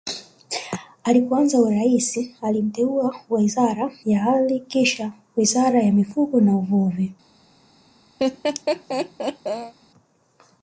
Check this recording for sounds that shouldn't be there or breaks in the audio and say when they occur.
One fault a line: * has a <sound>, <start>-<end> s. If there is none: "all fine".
* has a laugh, 8.2-9.7 s